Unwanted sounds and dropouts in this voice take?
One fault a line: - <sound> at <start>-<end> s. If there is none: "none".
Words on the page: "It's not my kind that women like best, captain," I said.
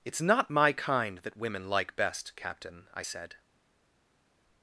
none